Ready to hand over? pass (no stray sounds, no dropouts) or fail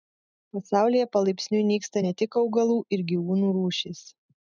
pass